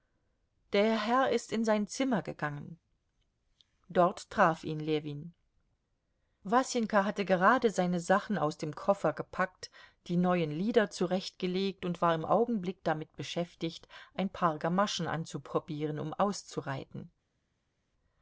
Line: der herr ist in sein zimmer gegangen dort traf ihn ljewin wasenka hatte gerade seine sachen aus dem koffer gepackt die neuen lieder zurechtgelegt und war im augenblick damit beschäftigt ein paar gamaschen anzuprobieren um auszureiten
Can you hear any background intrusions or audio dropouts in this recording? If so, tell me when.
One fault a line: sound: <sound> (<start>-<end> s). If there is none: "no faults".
no faults